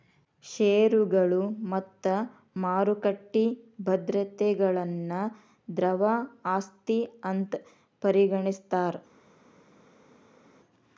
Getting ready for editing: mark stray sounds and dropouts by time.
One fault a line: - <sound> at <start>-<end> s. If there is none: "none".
none